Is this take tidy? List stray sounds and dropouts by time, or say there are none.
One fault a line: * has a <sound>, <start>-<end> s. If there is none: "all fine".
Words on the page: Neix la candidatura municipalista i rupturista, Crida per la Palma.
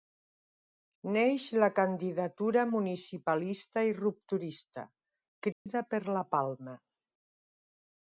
* has a dropout, 5.5-5.7 s